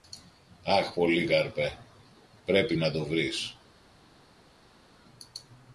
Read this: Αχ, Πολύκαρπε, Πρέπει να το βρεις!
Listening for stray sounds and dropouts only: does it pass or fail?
pass